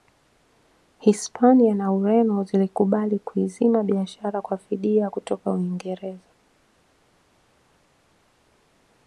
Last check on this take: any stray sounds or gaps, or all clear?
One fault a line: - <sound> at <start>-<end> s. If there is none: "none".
none